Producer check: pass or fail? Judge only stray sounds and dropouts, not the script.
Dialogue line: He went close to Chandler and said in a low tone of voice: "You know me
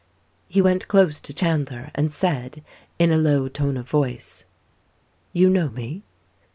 pass